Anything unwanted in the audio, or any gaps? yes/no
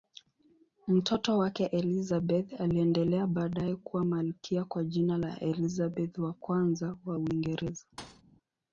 yes